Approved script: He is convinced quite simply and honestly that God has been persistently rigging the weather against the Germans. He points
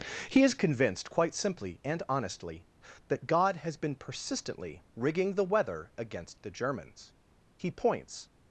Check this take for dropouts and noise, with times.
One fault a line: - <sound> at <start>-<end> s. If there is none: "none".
none